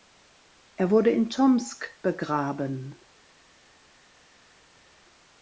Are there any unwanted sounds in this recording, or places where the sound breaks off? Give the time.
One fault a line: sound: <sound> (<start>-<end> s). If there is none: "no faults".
no faults